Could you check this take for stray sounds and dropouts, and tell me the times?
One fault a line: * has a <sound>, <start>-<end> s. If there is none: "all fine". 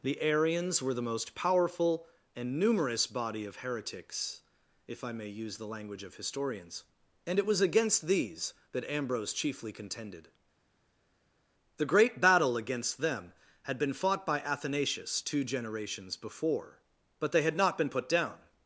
all fine